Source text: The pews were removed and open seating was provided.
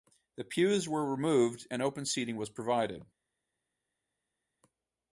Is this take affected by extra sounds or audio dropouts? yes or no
no